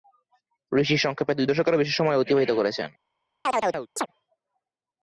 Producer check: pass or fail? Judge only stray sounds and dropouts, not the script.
fail